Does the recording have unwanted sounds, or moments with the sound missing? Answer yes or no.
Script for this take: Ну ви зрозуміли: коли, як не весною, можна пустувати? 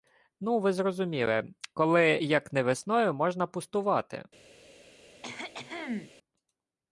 yes